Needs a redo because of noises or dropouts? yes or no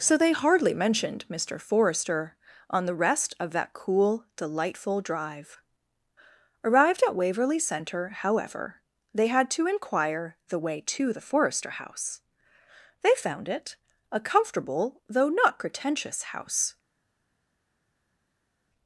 no